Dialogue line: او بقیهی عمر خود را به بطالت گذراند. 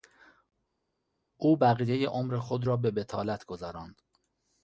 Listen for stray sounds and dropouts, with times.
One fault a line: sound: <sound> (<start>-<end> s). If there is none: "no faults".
no faults